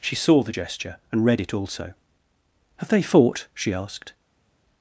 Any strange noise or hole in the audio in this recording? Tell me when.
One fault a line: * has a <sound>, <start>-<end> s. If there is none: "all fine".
all fine